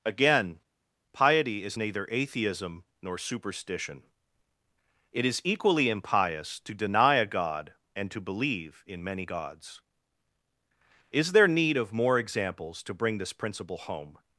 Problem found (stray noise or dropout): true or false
false